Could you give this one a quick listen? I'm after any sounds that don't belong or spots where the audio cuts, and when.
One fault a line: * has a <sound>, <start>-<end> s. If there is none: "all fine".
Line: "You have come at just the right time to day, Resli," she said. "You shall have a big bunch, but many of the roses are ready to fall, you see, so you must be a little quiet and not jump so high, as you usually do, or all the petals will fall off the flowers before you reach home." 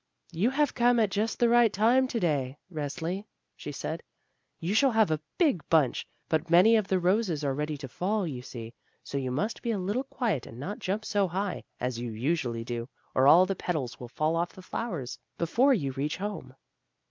all fine